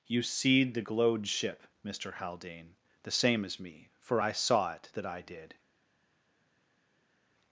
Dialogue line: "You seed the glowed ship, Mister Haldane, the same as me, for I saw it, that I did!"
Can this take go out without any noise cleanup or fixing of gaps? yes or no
yes